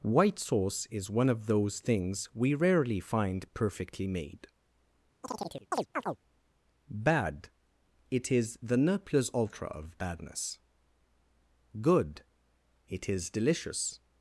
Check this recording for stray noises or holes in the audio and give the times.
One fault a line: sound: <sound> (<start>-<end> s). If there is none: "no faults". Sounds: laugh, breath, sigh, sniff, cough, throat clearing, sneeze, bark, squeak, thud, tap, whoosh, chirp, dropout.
sound: chirp (5.2-6.2 s)